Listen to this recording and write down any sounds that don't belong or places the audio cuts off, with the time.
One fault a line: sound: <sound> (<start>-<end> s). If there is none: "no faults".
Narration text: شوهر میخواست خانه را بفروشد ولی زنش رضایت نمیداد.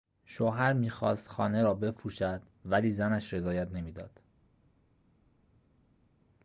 no faults